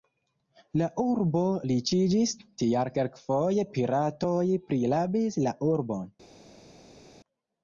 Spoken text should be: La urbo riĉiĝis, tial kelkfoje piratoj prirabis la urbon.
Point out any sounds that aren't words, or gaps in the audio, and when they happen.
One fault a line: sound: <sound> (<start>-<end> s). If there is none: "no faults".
no faults